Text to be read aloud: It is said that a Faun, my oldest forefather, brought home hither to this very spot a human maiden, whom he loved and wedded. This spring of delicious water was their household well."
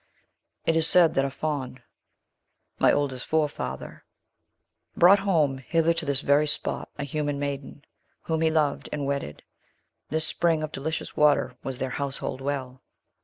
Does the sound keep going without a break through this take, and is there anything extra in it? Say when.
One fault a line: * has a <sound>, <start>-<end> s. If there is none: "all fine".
all fine